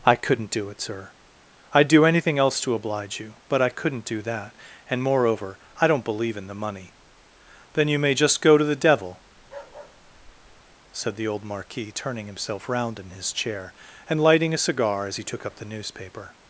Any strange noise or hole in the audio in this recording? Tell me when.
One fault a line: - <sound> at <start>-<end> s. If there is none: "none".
- bark at 9.4-10.8 s